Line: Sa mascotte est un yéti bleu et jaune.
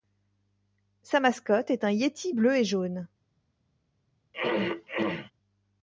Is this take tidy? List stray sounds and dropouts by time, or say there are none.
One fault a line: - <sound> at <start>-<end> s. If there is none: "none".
- throat clearing at 4.3-5.3 s